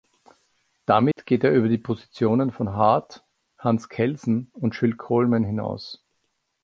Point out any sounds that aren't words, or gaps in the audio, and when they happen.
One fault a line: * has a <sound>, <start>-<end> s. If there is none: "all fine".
* has a dropout, 1.1-1.2 s